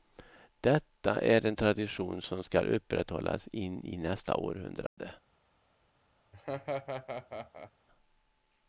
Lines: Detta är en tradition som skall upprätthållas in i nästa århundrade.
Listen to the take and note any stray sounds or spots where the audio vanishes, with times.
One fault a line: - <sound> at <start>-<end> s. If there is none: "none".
- dropout at 4.9-5.0 s
- laugh at 6.3-7.7 s